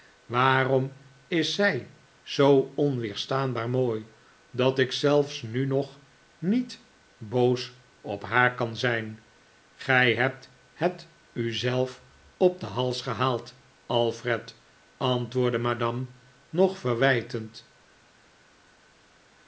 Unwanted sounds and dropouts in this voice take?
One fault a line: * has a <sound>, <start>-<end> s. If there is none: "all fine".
all fine